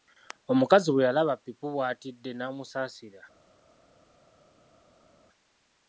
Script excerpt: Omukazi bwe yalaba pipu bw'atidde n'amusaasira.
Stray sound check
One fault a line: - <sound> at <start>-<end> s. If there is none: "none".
none